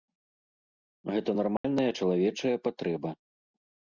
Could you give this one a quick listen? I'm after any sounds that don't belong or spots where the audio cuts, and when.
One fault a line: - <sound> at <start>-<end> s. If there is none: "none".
- dropout at 1.6-1.6 s